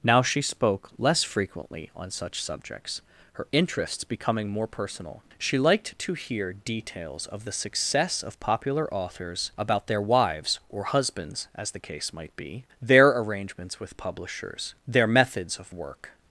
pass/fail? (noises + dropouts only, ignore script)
pass